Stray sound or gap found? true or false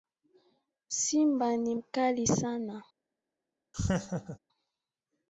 true